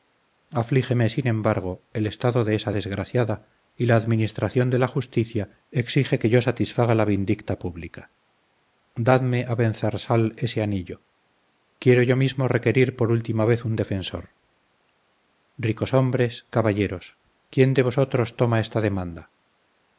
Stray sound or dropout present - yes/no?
no